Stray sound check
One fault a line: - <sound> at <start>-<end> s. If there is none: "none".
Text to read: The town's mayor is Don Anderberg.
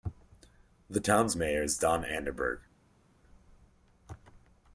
none